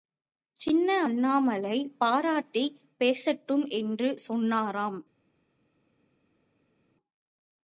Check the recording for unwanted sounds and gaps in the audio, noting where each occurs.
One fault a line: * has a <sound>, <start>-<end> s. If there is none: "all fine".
all fine